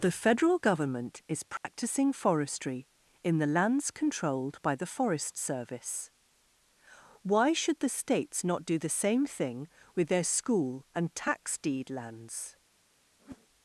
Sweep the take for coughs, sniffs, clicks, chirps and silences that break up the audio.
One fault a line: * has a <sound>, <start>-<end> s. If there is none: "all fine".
* has a dropout, 1.6-1.6 s
* has a whoosh, 13.2-13.5 s